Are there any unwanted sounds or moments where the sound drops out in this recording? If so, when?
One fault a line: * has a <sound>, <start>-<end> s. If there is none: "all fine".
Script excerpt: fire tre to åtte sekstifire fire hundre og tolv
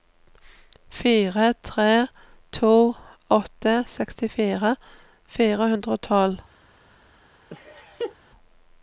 * has a laugh, 7.5-8.2 s